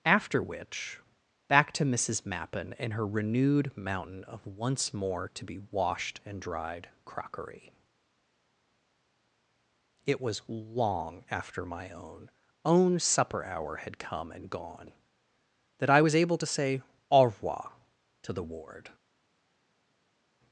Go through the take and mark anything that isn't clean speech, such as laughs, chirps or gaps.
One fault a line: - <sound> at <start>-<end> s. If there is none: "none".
none